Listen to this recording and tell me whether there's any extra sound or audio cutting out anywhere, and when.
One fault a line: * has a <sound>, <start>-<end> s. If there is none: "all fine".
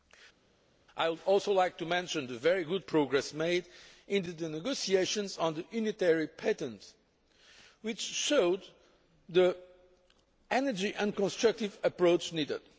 all fine